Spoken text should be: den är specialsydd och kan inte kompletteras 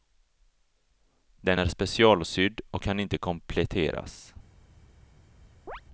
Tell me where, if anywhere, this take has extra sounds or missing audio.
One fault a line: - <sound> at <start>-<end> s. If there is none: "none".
- chirp at 5.7-5.8 s